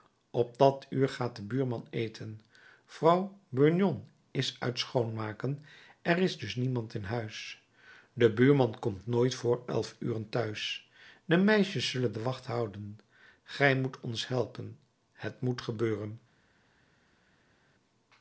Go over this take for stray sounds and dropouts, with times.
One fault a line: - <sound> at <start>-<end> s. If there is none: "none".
none